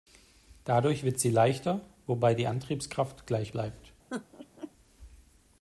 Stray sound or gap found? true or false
true